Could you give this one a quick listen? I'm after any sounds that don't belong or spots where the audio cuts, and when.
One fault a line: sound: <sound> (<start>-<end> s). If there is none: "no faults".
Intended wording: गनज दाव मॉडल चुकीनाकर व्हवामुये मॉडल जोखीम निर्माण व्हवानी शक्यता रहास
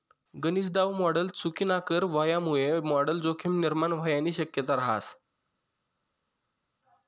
no faults